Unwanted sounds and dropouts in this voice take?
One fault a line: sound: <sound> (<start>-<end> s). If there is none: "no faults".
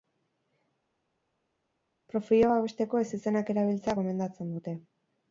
no faults